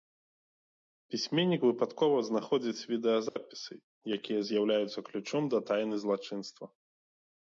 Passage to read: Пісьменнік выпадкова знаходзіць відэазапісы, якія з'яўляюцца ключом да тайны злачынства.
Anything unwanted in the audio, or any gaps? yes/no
yes